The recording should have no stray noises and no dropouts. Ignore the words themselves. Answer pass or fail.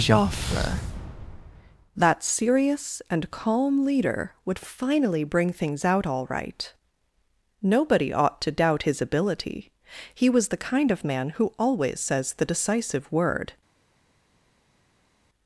pass